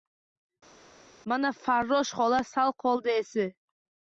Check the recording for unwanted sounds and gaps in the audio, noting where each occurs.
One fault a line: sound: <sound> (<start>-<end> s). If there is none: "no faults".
no faults